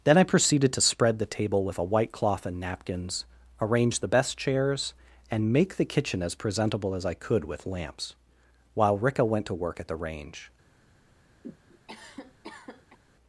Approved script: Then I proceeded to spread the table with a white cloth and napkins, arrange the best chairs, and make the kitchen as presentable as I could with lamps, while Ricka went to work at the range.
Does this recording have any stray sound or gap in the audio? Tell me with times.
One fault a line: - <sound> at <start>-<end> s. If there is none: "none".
- cough at 11.4-13.0 s